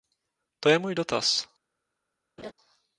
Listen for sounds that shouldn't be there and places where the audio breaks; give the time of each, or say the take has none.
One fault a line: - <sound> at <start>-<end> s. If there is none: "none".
- laugh at 2.4-2.5 s